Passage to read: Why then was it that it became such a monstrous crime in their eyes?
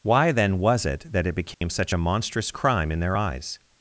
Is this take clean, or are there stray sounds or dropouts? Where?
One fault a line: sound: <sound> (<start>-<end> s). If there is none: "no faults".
sound: dropout (1.5-1.6 s)